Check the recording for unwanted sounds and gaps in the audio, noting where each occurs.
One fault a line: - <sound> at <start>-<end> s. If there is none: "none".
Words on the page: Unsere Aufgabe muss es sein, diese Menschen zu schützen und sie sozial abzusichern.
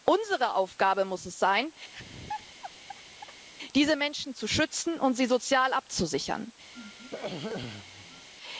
- laugh at 1.9-3.4 s
- throat clearing at 6.7-8.3 s